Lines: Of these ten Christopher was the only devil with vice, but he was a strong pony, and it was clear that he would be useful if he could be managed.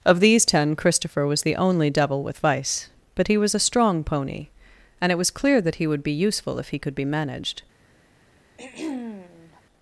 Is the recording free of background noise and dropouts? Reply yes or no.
no